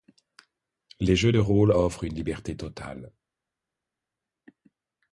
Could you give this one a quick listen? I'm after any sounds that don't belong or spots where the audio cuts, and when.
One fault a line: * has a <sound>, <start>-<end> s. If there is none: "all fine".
all fine